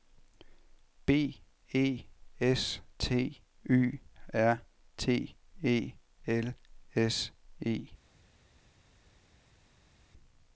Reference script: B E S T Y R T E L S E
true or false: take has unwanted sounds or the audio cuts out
false